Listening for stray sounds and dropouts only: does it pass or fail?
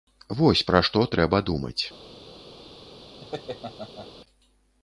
fail